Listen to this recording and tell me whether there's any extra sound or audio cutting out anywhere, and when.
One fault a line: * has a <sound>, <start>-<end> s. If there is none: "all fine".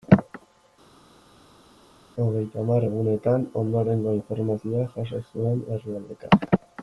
all fine